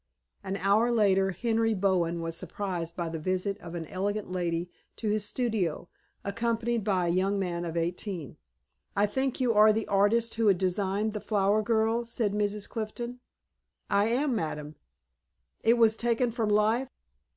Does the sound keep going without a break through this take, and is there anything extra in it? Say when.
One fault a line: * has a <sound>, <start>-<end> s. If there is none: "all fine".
all fine